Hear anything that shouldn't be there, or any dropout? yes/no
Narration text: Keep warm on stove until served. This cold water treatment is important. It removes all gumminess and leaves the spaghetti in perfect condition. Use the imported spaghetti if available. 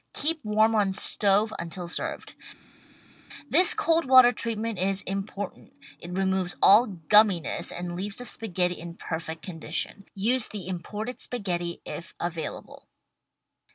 no